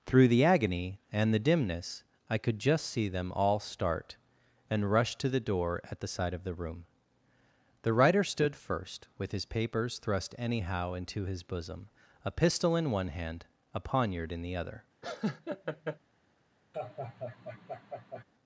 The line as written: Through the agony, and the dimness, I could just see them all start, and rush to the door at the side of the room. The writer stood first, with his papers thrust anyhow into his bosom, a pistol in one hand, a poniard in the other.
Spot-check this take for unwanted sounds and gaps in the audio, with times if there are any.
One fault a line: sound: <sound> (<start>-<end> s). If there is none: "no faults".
sound: laugh (15.0-16.0 s)
sound: laugh (16.7-18.2 s)